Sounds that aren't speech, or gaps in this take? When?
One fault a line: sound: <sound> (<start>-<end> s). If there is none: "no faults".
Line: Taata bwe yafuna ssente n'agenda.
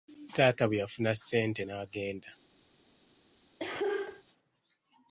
sound: cough (3.6-4.2 s)